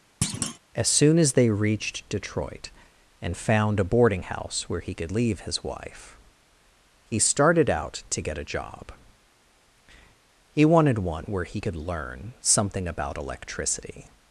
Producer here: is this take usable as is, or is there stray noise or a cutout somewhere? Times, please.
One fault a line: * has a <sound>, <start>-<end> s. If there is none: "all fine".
* has a thud, 0.2-0.6 s